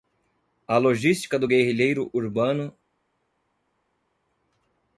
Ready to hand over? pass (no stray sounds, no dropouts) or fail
pass